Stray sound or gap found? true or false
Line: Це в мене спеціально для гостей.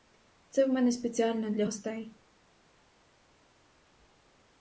false